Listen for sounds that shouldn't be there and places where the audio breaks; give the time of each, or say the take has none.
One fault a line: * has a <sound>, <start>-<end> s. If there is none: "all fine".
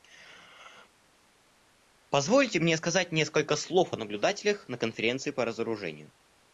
all fine